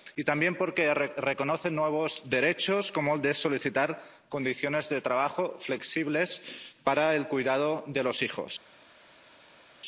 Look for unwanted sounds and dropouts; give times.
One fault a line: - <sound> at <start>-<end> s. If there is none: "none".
none